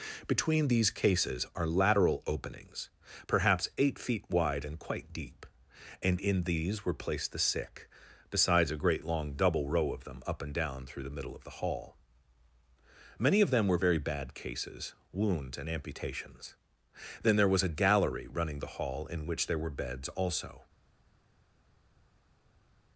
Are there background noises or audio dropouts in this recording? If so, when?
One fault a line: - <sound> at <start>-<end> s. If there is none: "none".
none